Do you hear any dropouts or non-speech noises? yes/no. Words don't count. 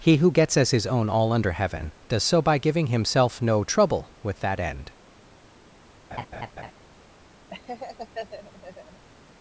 yes